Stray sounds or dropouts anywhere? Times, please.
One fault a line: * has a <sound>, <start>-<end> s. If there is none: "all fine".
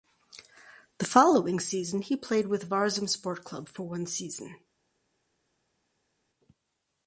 all fine